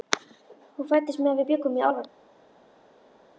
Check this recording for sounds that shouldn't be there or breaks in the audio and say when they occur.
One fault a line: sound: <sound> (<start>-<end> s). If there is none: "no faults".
no faults